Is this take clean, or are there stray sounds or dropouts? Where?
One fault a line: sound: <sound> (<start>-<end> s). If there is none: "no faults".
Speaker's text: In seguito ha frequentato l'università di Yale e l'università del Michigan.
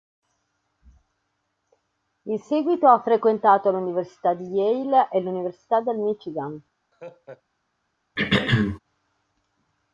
sound: laugh (6.9-7.4 s)
sound: throat clearing (8.2-8.8 s)